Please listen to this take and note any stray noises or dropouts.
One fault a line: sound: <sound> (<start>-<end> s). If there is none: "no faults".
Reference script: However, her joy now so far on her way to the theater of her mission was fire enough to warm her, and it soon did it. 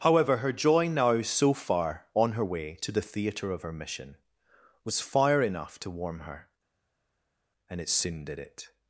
no faults